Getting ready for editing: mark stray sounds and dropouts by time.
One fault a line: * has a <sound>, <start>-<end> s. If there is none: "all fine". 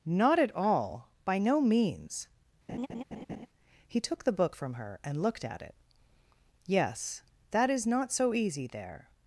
* has a laugh, 2.7-3.5 s